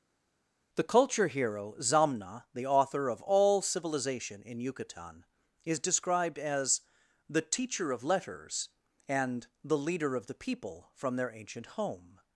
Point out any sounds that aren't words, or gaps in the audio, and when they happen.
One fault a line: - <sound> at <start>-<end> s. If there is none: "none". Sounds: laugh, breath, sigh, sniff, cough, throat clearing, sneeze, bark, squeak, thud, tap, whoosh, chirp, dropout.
none